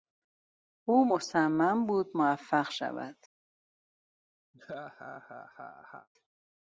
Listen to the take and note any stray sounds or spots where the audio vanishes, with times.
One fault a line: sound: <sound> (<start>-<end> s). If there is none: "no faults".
sound: laugh (4.5-6.1 s)